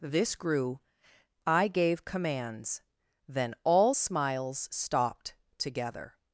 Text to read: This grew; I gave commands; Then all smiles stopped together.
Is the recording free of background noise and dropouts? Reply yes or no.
yes